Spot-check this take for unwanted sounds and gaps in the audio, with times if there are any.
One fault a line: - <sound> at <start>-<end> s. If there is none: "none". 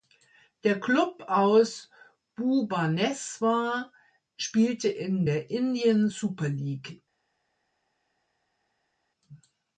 none